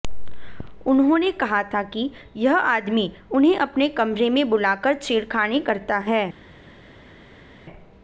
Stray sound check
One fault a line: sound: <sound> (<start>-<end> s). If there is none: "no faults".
no faults